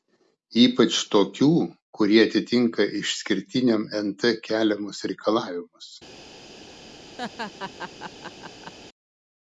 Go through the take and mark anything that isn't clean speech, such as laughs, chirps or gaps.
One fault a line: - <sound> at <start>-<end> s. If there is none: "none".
- laugh at 7.2-8.7 s